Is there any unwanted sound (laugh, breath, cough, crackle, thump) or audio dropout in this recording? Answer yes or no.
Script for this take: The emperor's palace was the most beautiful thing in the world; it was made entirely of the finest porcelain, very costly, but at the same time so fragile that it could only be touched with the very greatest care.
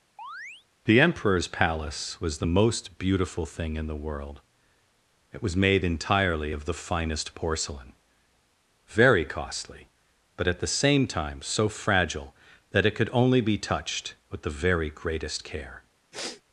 yes